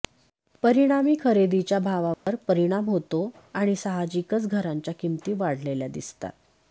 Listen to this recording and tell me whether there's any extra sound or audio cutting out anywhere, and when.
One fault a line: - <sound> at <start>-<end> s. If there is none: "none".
- dropout at 2.1-2.3 s